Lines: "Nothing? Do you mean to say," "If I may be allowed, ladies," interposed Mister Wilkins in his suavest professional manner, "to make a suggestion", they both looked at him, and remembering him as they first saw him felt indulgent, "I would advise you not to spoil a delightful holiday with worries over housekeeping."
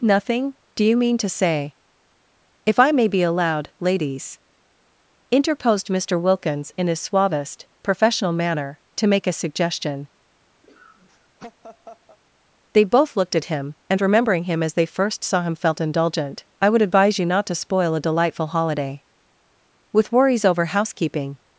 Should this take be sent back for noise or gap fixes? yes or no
yes